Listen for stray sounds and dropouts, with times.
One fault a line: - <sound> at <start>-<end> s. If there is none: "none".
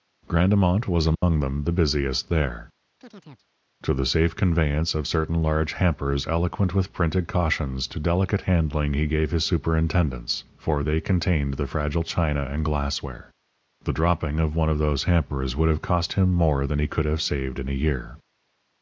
- dropout at 1.1-1.2 s
- chirp at 3.0-3.5 s